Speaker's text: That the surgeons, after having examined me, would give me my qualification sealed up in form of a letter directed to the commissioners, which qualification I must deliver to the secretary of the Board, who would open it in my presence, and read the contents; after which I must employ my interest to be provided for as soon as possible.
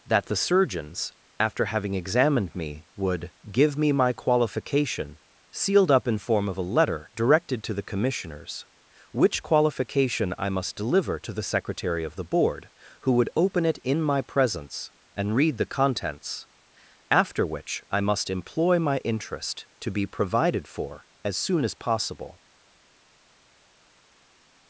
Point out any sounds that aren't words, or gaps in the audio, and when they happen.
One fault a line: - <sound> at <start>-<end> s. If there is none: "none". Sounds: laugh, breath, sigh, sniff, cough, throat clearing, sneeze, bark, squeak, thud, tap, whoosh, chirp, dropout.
none